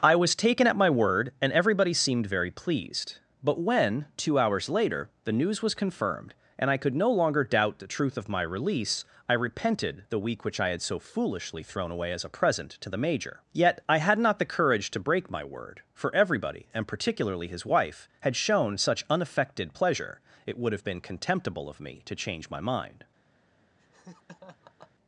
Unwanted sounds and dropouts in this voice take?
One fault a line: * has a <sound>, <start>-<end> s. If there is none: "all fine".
* has a laugh, 23.8-24.9 s